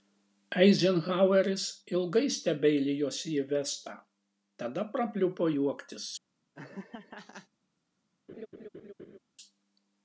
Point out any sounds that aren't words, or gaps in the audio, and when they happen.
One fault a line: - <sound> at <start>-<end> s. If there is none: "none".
- laugh at 6.5-7.5 s
- laugh at 8.3-9.2 s